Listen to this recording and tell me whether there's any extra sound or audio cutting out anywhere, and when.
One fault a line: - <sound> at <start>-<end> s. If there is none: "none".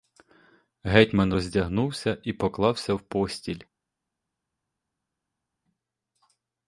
none